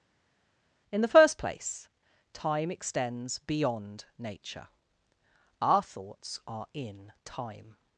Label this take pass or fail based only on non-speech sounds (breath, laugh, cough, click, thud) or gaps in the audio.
pass